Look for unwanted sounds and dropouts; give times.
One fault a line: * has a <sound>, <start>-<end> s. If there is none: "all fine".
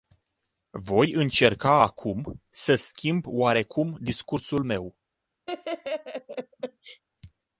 * has a laugh, 5.5-7.0 s